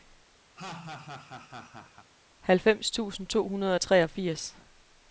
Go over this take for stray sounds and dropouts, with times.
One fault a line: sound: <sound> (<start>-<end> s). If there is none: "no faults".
sound: laugh (0.5-2.1 s)